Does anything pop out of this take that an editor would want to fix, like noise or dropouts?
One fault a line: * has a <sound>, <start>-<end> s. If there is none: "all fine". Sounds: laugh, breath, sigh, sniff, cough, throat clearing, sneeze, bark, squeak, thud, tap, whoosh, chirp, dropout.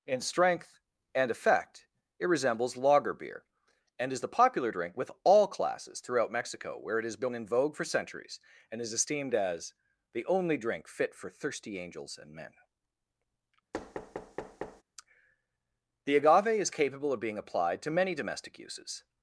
* has a thud, 13.7-14.8 s